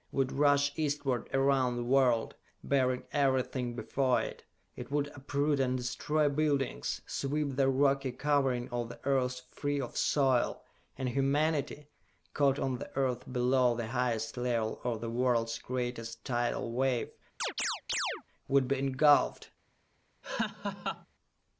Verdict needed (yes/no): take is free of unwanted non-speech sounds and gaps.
no